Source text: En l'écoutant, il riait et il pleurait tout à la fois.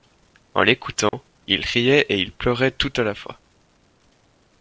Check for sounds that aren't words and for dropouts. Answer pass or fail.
fail